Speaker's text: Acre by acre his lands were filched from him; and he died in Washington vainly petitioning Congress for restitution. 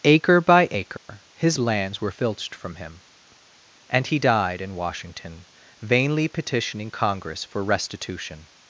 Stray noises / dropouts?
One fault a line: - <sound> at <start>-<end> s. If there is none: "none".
- dropout at 1.0-1.1 s